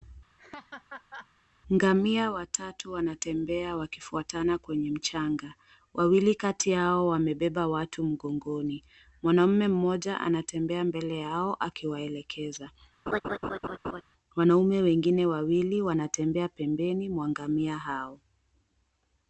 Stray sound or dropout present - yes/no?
yes